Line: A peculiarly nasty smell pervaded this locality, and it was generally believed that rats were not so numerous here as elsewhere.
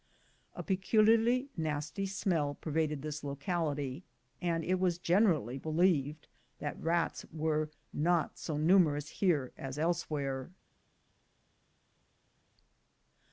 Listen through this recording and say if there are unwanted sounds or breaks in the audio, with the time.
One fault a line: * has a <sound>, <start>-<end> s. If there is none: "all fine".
all fine